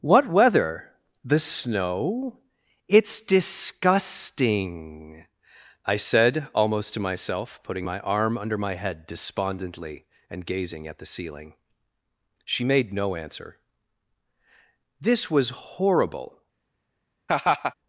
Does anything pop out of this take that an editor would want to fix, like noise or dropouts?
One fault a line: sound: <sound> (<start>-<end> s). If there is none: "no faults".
sound: laugh (17.3-17.7 s)